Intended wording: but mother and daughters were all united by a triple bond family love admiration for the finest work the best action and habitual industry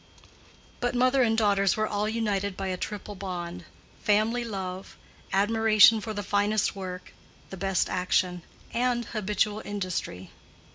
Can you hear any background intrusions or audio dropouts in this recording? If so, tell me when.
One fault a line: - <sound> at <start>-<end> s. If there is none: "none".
none